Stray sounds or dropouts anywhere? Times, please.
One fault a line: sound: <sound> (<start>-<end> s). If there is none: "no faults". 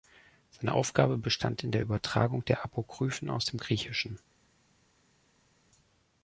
no faults